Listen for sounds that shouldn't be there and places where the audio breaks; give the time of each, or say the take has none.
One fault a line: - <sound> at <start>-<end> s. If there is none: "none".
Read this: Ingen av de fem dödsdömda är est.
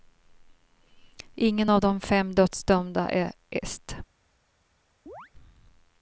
- chirp at 5.1-5.3 s